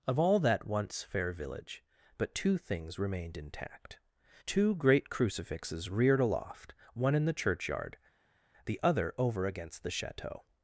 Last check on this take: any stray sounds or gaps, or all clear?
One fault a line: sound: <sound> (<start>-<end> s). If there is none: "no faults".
no faults